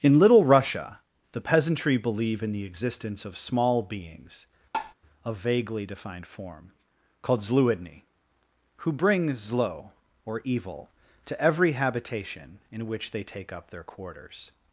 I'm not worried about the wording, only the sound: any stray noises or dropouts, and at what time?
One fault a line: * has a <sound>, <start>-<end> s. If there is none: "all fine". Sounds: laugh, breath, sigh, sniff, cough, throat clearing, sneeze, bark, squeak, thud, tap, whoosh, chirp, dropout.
* has a tap, 4.7-4.9 s